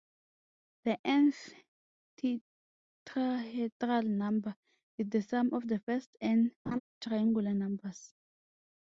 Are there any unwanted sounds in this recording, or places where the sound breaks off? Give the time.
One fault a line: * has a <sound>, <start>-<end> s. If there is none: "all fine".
* has a laugh, 6.7-6.8 s